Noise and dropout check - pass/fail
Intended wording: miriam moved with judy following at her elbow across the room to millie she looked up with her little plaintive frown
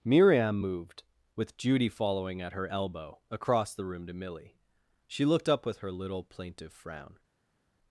pass